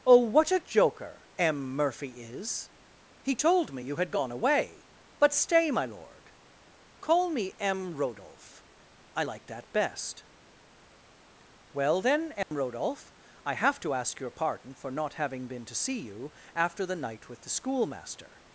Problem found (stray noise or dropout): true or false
true